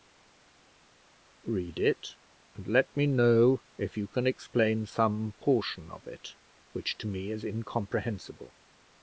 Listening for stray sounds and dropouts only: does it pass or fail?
pass